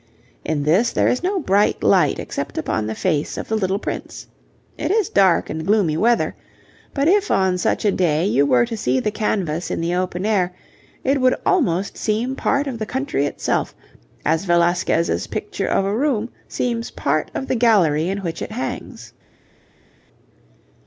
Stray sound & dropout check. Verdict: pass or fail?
pass